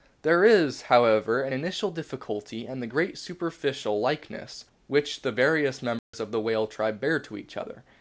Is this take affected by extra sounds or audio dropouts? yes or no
yes